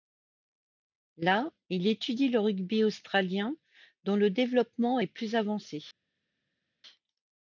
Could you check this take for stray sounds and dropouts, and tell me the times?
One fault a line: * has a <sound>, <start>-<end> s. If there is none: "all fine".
all fine